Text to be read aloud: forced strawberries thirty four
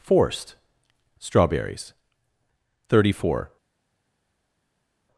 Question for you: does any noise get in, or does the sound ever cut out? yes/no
no